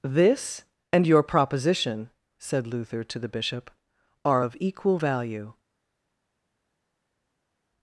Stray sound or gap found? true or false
false